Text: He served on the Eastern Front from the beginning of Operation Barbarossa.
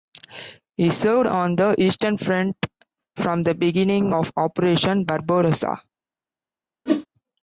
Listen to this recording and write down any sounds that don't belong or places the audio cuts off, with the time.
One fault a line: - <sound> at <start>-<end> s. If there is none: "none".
- whoosh at 6.9-7.1 s